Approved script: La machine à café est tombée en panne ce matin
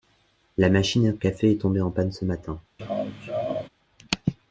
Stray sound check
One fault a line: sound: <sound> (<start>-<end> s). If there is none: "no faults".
sound: laugh (2.8-3.7 s)